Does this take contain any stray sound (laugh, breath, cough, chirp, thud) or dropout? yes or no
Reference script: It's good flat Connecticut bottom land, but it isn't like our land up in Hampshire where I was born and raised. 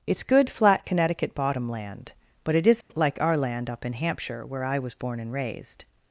yes